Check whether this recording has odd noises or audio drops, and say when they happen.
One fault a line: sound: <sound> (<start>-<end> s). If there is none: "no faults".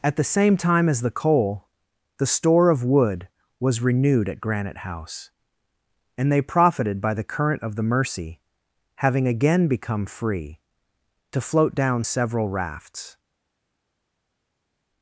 no faults